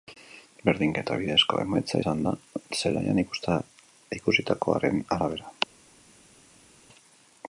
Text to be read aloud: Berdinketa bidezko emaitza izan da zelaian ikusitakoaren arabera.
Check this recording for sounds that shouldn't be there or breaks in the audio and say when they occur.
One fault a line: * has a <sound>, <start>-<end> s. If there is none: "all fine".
all fine